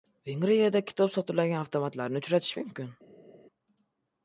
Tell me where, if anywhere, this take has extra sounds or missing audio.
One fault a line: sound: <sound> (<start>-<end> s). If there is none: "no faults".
no faults